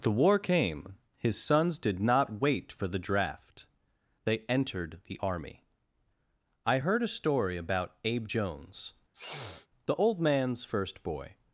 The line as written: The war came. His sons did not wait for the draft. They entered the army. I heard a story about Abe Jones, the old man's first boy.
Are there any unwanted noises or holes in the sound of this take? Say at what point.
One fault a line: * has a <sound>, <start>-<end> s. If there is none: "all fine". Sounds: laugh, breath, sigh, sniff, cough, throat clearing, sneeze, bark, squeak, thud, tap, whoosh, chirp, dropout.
* has a sniff, 9.1-9.7 s